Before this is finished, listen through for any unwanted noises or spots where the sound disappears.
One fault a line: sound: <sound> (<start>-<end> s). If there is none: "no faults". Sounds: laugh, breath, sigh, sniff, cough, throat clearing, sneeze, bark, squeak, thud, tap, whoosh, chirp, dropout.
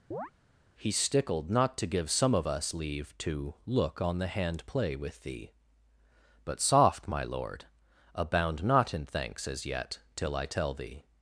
sound: chirp (0.1-0.3 s)